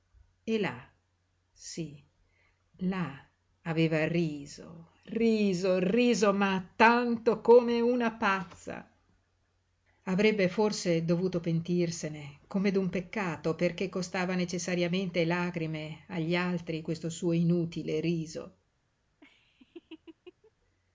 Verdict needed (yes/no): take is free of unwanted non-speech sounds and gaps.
no